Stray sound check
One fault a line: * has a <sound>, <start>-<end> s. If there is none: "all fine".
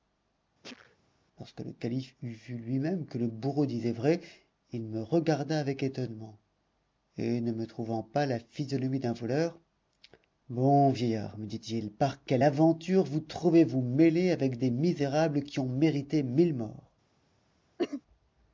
* has a sneeze, 0.6-1.0 s
* has a cough, 17.8-18.0 s